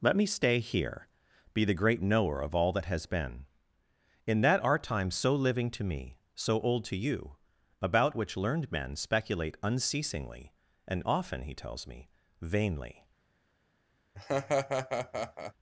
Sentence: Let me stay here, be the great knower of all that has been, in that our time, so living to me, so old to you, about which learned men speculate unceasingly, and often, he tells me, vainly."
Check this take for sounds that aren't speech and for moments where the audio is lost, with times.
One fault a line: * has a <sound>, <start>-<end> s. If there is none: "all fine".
* has a laugh, 14.1-15.5 s